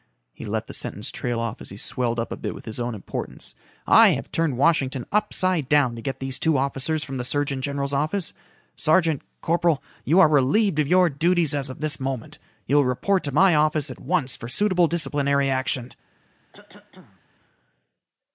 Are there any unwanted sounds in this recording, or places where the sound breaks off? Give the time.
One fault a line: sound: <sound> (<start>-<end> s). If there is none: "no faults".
sound: cough (16.5-17.2 s)